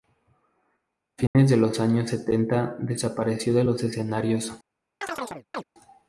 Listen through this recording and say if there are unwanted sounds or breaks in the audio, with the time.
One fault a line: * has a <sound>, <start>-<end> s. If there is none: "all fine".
* has a dropout, 1.3-1.3 s
* has a chirp, 5.0-5.6 s